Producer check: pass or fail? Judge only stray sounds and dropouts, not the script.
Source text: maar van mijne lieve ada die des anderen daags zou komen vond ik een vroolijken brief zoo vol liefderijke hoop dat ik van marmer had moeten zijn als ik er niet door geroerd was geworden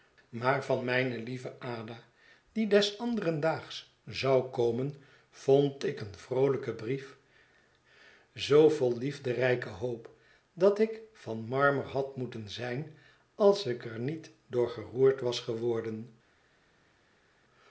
pass